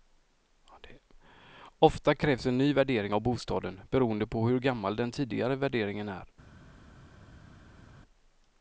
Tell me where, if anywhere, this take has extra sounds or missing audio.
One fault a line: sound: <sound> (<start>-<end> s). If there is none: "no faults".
no faults